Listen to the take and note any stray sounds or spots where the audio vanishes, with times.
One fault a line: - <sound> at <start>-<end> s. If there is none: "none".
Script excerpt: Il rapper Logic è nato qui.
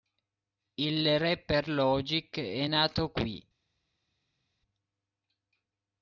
none